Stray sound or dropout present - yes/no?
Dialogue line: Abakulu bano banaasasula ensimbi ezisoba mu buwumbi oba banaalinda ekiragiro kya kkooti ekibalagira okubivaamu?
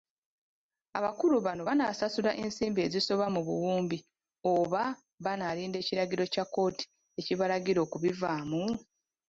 no